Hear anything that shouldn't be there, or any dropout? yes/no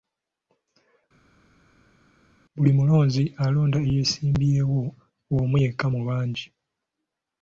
no